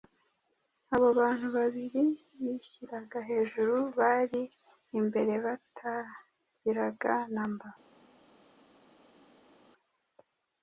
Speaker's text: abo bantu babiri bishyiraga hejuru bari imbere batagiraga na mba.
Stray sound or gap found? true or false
false